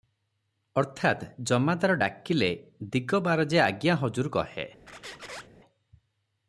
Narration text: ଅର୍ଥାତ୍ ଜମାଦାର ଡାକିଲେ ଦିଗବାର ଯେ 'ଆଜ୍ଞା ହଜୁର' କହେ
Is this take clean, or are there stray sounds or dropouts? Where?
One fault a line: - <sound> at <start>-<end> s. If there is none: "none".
- squeak at 4.9-5.5 s